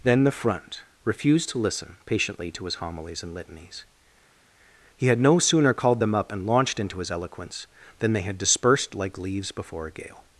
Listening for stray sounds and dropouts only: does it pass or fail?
pass